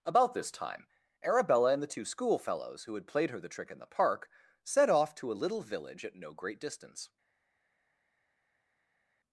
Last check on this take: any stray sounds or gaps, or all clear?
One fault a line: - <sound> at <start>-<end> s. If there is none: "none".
none